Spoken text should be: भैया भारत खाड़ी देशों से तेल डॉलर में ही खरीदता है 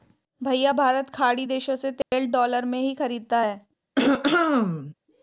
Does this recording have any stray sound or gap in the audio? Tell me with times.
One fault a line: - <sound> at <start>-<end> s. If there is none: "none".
- dropout at 2.0-2.1 s
- throat clearing at 4.0-4.9 s